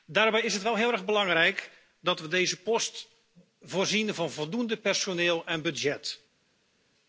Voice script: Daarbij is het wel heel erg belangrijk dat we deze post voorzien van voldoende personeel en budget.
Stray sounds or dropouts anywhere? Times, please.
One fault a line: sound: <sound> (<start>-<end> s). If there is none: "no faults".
no faults